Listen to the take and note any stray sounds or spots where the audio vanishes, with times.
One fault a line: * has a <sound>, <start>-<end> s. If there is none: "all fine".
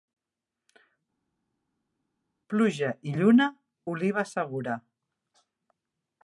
all fine